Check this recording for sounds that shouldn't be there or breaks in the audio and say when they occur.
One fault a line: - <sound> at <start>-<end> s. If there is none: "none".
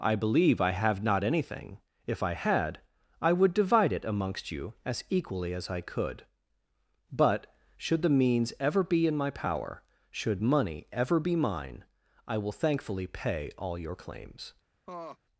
- laugh at 14.9-15.2 s